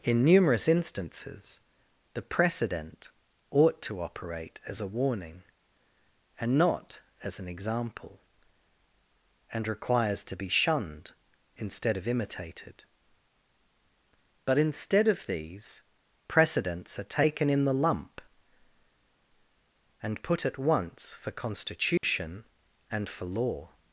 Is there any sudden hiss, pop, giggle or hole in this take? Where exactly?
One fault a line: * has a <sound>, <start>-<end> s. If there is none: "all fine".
* has a dropout, 22.0-22.0 s